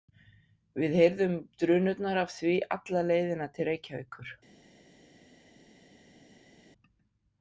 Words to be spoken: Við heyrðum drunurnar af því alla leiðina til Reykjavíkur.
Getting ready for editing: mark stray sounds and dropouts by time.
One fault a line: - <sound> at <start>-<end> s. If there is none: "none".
none